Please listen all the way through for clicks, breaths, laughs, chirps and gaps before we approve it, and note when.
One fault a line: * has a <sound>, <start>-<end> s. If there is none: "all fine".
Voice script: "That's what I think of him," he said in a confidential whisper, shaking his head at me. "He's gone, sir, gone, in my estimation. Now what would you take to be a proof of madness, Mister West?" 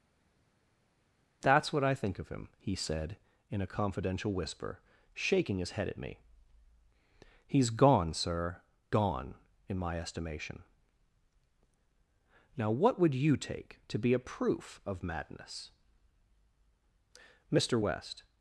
all fine